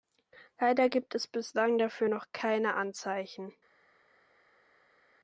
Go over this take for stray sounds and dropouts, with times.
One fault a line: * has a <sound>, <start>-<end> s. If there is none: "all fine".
all fine